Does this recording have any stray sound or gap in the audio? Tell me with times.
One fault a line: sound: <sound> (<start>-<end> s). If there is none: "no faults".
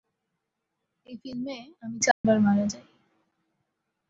sound: dropout (2.1-2.2 s)